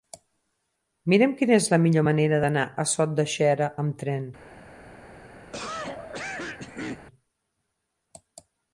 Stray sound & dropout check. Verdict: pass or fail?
fail